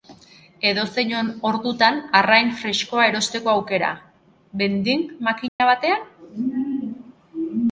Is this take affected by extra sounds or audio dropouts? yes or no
yes